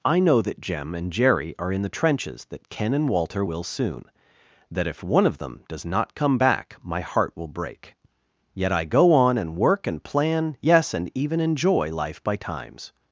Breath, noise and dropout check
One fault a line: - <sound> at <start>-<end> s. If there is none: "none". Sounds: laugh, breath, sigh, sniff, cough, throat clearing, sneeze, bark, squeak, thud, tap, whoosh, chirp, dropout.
none